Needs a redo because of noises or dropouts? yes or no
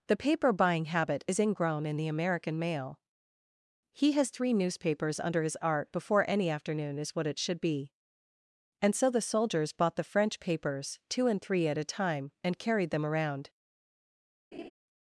yes